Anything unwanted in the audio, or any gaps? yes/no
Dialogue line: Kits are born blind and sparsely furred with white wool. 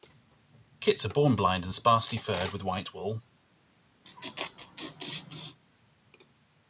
yes